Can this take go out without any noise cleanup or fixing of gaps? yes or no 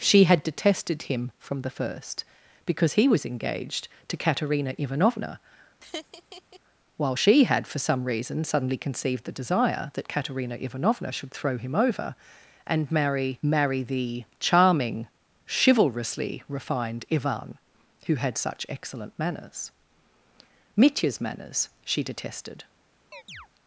no